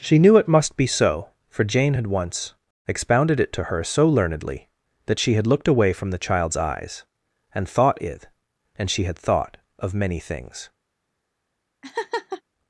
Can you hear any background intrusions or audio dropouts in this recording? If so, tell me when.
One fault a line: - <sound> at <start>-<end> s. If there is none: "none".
- laugh at 11.8-12.4 s